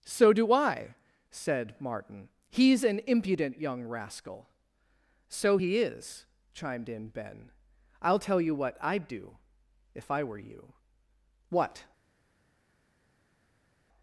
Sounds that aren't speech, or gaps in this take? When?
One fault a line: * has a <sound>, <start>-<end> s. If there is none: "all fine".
all fine